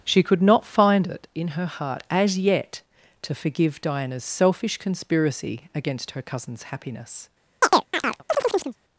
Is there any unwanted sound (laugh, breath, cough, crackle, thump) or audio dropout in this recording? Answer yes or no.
yes